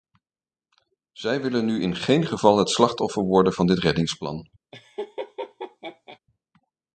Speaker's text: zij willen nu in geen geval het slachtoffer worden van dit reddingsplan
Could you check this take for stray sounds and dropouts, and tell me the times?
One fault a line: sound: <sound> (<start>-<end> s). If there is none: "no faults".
sound: laugh (4.7-6.2 s)